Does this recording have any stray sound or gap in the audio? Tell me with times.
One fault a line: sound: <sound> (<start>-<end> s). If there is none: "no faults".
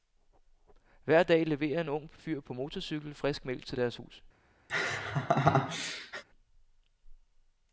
sound: laugh (4.7-6.2 s)